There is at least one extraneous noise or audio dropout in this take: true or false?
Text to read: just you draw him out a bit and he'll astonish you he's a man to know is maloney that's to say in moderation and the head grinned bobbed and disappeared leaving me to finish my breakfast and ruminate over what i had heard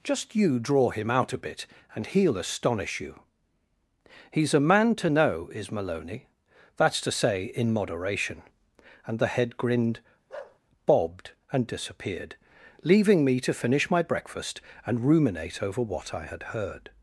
true